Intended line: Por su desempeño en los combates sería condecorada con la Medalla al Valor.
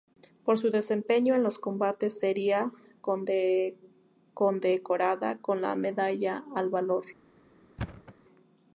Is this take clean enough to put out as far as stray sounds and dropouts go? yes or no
no